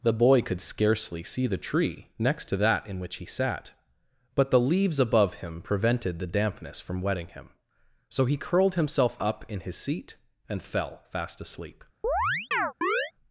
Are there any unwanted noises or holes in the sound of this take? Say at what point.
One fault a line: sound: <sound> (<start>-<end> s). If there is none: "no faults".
sound: chirp (12.0-13.1 s)